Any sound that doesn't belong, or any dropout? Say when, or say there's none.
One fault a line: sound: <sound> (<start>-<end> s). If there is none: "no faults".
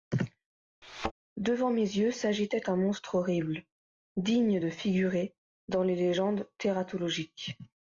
sound: thud (0.8-1.1 s)